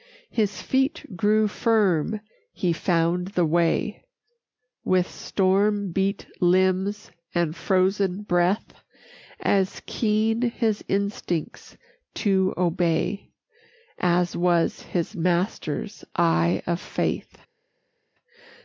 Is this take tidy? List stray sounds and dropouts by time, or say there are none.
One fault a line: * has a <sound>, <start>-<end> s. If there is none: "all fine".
all fine